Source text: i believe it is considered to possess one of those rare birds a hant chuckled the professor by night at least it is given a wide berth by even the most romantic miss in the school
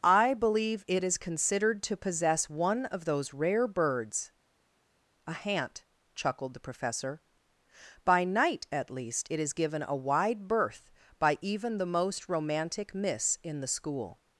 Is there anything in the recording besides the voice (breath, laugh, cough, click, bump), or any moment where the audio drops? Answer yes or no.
no